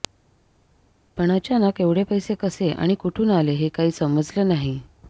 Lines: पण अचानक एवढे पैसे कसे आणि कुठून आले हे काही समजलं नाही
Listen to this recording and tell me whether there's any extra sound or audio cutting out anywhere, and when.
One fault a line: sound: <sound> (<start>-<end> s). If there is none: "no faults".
no faults